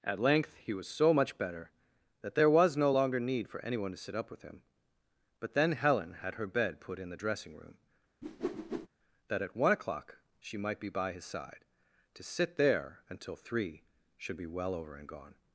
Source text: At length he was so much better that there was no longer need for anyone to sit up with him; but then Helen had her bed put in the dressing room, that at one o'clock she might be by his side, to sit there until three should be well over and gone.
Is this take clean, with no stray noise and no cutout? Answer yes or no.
no